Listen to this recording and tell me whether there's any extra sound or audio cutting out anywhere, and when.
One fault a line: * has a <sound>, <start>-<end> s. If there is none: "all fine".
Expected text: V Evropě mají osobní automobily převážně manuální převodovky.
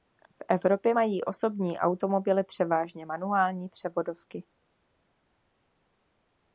all fine